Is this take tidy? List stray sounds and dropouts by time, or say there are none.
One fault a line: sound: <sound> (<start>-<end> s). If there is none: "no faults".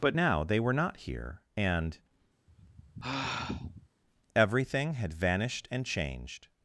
sound: sigh (2.5-3.9 s)